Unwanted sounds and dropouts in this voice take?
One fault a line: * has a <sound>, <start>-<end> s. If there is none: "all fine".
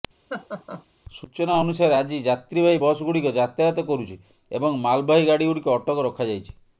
* has a laugh, 0.3-0.9 s